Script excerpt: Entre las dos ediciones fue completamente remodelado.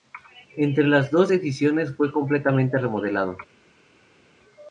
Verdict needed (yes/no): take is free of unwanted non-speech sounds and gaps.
yes